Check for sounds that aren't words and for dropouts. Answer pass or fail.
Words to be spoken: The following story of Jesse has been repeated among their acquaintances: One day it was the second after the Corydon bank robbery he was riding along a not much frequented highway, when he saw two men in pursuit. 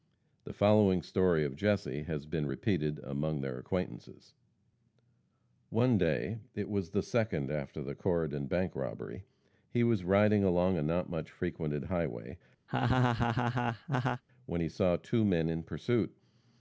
fail